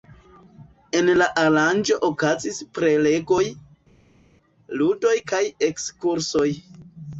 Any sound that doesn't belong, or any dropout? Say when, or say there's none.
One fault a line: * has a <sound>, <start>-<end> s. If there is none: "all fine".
all fine